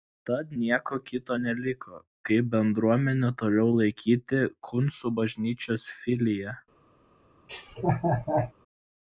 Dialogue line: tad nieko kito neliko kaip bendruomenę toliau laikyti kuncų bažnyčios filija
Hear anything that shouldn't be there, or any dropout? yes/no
yes